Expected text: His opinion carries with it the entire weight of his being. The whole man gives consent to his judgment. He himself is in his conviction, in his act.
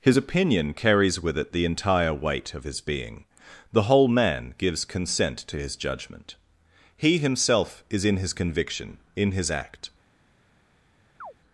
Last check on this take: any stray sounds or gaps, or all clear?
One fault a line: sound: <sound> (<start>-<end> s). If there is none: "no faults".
sound: chirp (11.2-11.3 s)